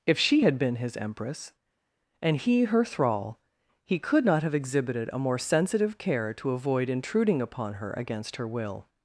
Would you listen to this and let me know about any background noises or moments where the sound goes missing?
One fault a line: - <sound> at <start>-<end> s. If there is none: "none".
none